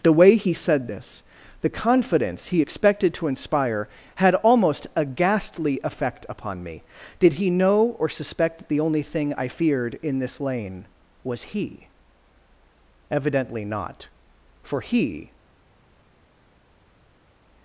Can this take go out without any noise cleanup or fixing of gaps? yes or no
yes